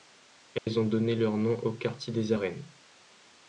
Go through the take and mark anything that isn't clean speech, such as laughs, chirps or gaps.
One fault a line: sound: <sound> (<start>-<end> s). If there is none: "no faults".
sound: dropout (0.6-0.7 s)